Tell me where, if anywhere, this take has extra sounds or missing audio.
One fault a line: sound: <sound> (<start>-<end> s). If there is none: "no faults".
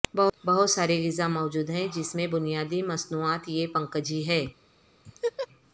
sound: laugh (5.0-5.5 s)